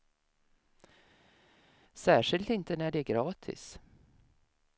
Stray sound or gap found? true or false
false